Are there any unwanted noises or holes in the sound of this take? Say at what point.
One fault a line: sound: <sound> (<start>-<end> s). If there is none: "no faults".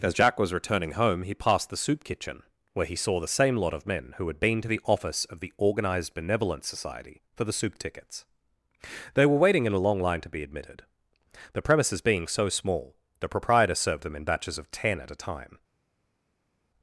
no faults